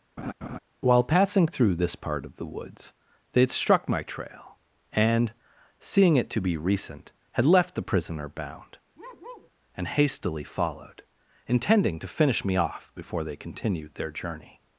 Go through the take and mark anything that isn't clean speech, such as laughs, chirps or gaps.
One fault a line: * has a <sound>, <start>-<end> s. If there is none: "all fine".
* has a laugh, 0.2-0.6 s
* has a bark, 9.0-9.5 s